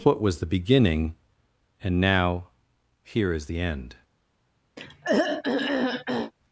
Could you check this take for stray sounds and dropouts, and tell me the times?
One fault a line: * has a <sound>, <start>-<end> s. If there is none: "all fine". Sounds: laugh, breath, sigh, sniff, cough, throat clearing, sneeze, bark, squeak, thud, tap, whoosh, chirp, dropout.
* has a throat clearing, 4.8-6.3 s